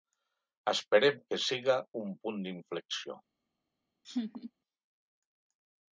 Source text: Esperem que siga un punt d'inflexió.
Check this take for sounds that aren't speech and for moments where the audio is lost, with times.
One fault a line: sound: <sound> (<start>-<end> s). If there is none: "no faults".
sound: laugh (4.0-4.5 s)